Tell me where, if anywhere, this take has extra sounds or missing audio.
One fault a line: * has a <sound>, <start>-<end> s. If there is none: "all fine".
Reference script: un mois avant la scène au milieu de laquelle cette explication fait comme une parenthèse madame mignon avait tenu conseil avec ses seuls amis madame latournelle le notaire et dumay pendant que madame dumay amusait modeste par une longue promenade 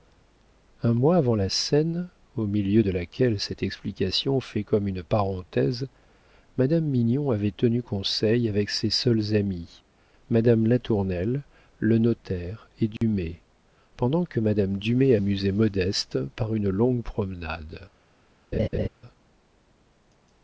* has a dropout, 13.0-13.0 s
* has a laugh, 18.5-18.9 s